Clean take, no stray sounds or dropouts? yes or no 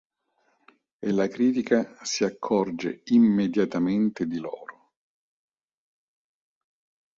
yes